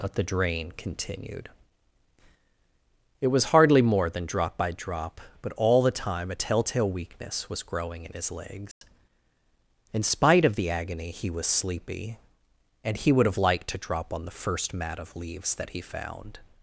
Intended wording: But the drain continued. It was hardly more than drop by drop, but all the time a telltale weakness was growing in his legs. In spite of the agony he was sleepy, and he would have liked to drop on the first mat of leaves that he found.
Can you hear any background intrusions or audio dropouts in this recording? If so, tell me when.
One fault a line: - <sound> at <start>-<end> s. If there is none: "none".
- dropout at 8.7-8.8 s